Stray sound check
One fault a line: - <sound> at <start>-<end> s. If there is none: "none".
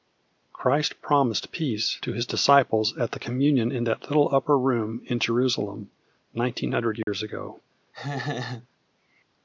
- dropout at 7.0-7.1 s
- laugh at 7.9-8.7 s